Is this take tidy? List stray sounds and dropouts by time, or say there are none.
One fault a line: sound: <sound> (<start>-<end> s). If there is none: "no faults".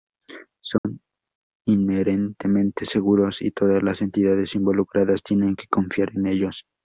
sound: dropout (0.8-0.8 s)